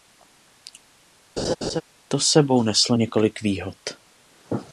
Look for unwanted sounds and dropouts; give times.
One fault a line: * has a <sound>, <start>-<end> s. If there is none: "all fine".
* has a laugh, 1.4-1.8 s